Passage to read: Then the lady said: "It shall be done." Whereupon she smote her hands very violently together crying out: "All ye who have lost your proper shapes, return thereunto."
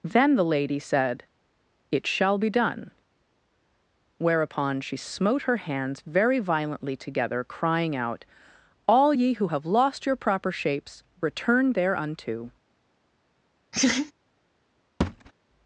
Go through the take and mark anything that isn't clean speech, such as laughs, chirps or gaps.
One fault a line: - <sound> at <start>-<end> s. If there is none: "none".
- laugh at 13.7-14.1 s
- thud at 15.0-15.3 s